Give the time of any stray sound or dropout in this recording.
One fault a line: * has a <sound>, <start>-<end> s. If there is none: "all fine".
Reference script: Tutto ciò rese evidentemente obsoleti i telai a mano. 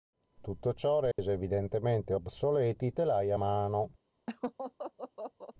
* has a dropout, 1.1-1.2 s
* has a laugh, 4.3-5.5 s